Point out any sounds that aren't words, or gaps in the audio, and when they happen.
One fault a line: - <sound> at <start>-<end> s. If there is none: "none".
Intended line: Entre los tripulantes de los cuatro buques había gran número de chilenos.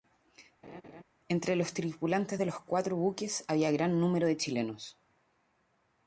- laugh at 0.6-1.0 s